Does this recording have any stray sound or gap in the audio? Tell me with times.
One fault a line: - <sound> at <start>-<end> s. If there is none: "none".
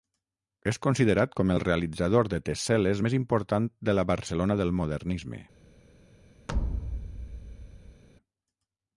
- thud at 6.5-8.0 s